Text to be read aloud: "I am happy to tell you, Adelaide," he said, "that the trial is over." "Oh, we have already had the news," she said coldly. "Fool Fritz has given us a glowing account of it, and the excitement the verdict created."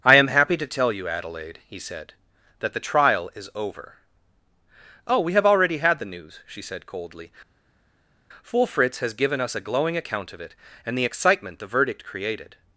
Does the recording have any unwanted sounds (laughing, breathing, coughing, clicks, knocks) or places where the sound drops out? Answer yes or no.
no